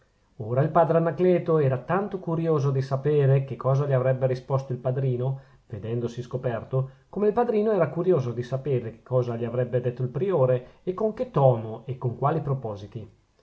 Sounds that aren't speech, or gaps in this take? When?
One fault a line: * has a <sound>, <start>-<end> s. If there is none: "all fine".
all fine